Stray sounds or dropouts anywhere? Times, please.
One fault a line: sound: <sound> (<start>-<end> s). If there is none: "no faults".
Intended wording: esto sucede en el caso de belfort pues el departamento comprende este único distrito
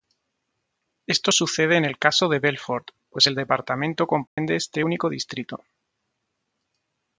sound: dropout (4.3-4.4 s)